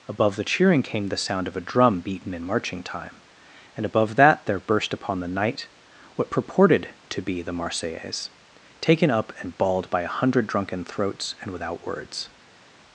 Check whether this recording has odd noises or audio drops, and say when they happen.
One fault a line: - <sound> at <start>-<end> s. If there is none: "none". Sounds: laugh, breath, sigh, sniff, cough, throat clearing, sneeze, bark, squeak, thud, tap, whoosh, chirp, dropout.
none